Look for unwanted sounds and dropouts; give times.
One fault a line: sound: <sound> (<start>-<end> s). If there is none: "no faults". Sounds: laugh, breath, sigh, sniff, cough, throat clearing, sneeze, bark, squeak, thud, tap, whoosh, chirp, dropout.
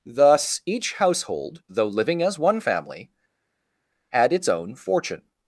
no faults